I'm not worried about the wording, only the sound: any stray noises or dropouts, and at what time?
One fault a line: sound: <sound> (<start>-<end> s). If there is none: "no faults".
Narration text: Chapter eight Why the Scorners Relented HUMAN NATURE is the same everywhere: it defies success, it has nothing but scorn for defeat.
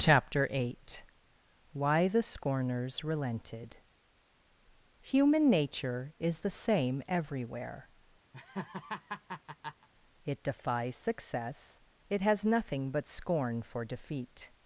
sound: laugh (8.3-9.9 s)